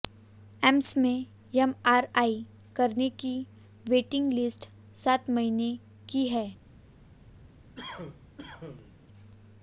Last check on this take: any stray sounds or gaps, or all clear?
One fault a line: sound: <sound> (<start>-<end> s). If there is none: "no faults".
sound: cough (7.7-9.0 s)